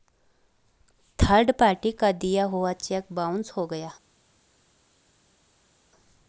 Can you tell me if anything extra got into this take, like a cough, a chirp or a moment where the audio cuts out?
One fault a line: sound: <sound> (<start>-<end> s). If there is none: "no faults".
no faults